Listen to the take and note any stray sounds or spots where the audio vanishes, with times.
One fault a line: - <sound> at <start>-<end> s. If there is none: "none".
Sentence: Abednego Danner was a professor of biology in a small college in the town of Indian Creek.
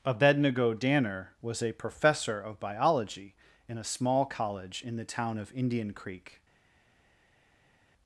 none